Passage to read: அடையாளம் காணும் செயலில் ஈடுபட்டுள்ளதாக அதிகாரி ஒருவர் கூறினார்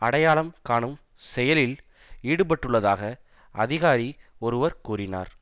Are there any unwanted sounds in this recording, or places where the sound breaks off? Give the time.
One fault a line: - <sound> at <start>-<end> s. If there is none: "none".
none